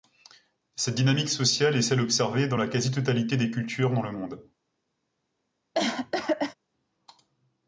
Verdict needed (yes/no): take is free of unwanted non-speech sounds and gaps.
no